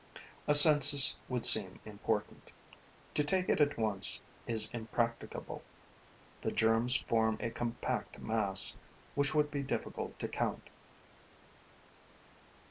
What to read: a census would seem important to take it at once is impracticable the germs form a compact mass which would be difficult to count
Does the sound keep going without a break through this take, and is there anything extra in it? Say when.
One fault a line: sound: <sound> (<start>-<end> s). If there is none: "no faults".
no faults